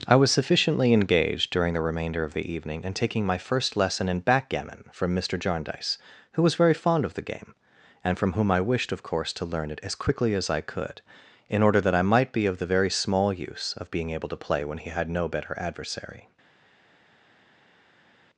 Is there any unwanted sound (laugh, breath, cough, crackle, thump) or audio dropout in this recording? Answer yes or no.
no